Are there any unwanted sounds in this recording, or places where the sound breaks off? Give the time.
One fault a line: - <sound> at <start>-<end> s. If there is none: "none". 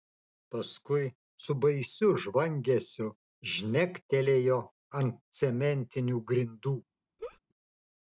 - laugh at 7.2-7.4 s